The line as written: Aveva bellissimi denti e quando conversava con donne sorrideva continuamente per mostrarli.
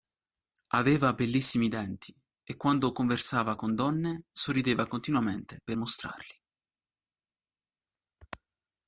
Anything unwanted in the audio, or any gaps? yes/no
no